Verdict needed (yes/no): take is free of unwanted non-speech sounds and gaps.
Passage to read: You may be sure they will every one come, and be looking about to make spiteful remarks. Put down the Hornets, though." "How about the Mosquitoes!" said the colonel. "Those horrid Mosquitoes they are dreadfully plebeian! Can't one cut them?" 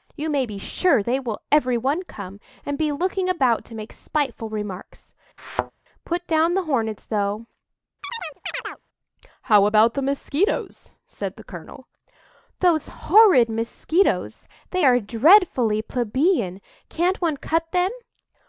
no